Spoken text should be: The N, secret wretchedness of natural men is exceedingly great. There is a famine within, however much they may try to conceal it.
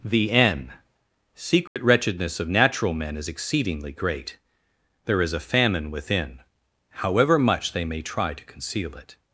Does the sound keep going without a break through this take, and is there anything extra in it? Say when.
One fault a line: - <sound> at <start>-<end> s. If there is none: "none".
- dropout at 1.7-1.8 s